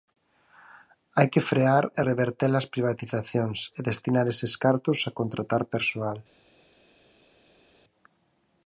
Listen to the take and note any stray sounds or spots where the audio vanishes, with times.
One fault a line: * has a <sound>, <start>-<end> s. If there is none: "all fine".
all fine